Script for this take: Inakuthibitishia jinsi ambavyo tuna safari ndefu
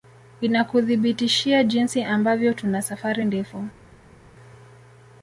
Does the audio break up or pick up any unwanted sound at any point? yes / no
no